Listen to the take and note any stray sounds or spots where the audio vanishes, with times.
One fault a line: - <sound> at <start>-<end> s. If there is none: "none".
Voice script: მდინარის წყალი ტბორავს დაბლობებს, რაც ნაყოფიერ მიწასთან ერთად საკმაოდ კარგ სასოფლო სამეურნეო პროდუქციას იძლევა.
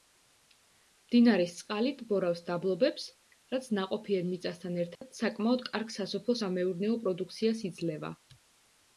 - dropout at 5.0-5.0 s